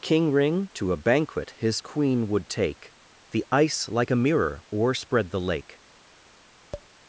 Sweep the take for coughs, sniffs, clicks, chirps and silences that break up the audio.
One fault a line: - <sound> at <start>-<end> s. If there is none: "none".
- tap at 6.7-6.9 s